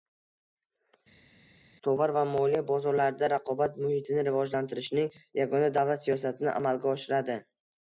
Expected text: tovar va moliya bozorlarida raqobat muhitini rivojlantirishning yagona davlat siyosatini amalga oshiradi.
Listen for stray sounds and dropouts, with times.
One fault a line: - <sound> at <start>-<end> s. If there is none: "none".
none